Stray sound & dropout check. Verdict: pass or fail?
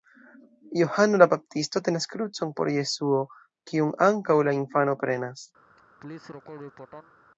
fail